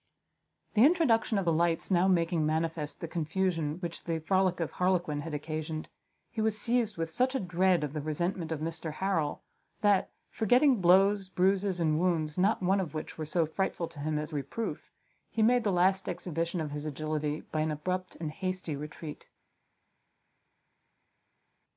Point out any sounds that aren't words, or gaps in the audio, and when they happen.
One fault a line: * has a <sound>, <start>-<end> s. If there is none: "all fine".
all fine